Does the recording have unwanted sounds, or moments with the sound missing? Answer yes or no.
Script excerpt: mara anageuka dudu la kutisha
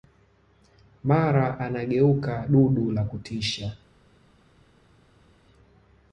no